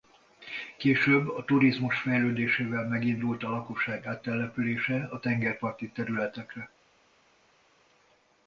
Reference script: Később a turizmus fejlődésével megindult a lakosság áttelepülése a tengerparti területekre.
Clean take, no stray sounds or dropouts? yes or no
yes